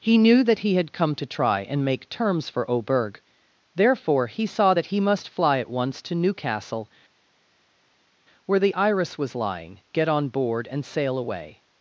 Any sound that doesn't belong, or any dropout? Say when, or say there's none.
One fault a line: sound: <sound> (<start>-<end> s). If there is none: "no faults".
no faults